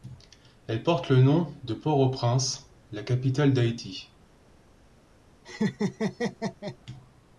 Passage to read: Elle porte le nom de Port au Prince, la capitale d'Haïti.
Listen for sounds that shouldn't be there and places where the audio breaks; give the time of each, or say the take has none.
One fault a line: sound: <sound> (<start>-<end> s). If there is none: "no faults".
sound: laugh (5.4-6.8 s)